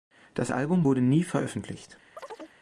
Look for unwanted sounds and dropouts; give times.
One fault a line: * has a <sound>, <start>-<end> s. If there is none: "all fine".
* has a chirp, 2.2-2.6 s